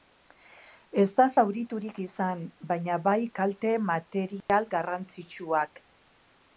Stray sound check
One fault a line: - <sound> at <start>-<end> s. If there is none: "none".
- dropout at 4.4-4.5 s